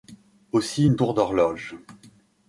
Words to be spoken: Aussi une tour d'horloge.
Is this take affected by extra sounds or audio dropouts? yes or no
no